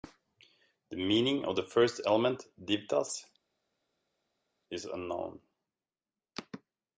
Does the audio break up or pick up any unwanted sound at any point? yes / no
no